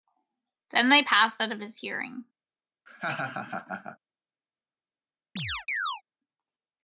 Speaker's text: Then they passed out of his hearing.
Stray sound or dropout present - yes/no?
yes